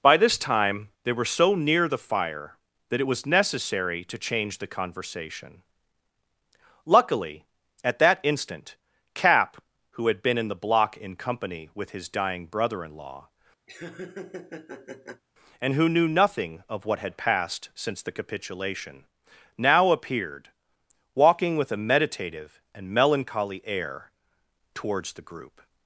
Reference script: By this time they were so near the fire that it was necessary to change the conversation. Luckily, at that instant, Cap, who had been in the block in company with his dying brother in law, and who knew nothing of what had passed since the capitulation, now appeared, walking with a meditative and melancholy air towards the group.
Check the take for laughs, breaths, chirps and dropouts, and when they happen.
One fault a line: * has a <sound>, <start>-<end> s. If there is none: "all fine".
* has a laugh, 13.7-15.2 s